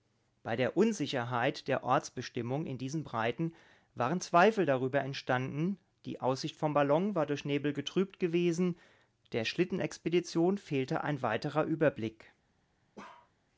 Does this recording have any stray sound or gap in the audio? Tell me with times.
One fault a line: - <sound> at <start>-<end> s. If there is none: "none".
- bark at 13.0-13.3 s